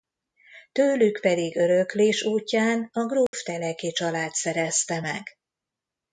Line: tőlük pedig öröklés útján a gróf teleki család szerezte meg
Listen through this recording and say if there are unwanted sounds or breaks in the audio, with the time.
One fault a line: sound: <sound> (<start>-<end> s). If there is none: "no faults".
sound: dropout (3.3-3.3 s)